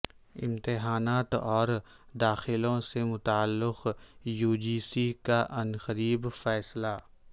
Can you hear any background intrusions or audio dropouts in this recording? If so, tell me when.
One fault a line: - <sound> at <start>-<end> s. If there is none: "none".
none